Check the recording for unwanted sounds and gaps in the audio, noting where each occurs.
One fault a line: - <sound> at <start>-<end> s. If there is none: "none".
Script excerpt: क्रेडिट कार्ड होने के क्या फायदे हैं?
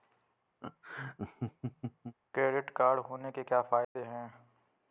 - laugh at 0.6-2.2 s
- dropout at 3.8-4.0 s